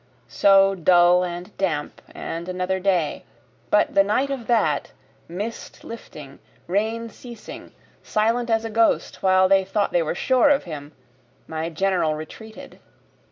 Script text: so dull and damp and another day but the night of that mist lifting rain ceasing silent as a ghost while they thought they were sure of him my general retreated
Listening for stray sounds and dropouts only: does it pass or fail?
pass